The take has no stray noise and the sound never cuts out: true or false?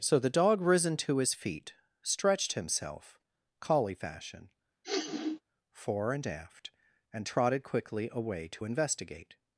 false